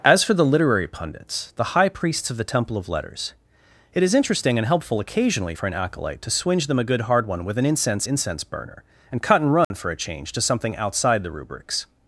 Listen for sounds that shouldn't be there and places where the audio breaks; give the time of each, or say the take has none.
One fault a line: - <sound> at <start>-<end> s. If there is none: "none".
- dropout at 9.6-9.7 s